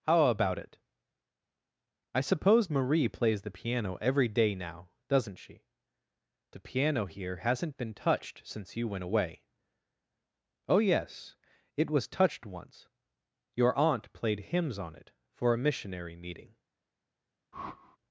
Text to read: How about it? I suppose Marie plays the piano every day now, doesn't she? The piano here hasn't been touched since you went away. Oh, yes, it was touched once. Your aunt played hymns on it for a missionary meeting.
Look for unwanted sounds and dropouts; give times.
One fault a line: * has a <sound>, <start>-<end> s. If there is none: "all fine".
* has a whoosh, 17.5-18.0 s